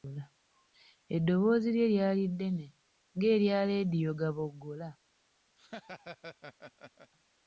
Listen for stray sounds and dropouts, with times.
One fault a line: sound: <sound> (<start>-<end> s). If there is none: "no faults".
sound: laugh (5.6-7.1 s)